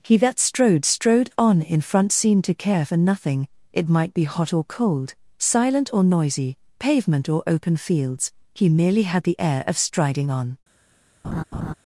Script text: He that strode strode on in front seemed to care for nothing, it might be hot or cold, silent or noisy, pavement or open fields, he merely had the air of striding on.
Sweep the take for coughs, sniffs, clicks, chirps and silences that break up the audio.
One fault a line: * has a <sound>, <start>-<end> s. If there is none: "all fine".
* has a laugh, 11.2-11.7 s